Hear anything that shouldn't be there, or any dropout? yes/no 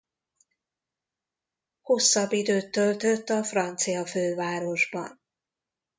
no